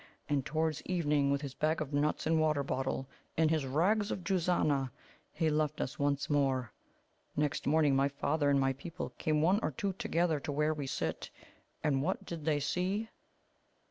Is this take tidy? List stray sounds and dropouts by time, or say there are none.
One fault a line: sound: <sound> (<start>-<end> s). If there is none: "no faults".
no faults